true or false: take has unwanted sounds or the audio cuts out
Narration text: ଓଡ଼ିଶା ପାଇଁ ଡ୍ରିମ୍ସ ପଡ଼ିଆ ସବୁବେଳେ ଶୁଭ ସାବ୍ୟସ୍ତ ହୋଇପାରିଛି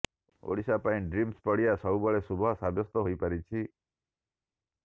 false